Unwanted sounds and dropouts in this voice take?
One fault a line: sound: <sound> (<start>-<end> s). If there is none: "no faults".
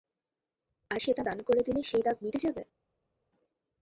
no faults